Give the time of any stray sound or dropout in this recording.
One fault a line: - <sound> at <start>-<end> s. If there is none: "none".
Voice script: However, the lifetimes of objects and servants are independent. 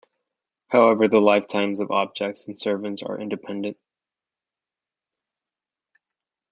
none